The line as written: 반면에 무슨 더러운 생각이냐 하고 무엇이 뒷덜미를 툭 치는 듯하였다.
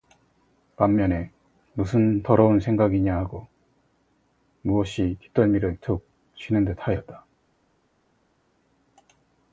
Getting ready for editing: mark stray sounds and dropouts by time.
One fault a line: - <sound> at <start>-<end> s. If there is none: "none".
none